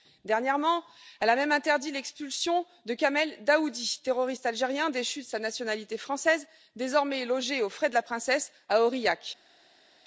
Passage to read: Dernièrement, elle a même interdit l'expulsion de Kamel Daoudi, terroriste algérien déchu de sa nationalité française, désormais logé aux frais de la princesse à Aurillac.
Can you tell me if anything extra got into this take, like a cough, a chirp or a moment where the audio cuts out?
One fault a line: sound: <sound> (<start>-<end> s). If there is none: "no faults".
no faults